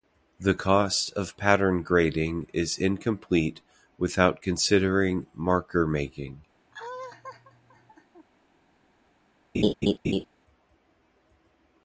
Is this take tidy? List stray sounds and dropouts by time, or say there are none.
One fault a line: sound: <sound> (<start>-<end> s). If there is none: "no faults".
sound: laugh (6.7-8.3 s)
sound: laugh (9.5-10.2 s)